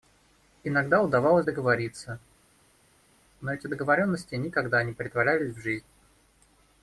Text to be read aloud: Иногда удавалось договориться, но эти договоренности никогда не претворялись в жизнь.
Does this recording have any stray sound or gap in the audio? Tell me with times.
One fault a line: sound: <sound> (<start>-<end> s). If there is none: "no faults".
no faults